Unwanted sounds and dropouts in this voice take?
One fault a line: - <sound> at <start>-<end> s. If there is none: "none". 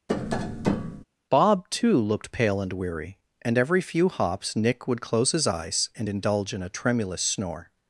- tap at 0.1-1.0 s